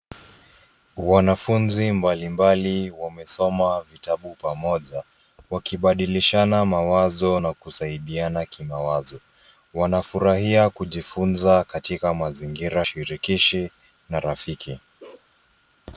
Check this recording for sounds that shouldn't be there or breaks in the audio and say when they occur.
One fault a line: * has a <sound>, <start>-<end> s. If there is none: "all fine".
* has a bark, 15.0-15.3 s